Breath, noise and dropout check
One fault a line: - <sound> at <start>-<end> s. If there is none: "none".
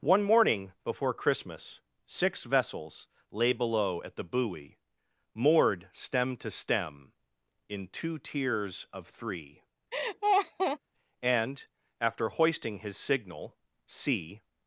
- laugh at 9.9-10.8 s